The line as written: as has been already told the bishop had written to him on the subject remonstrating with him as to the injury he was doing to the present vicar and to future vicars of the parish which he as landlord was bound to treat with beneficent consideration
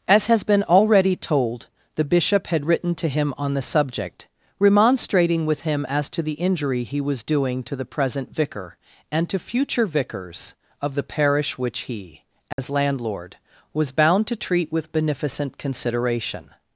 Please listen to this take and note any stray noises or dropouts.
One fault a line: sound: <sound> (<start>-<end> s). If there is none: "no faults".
sound: dropout (12.5-12.6 s)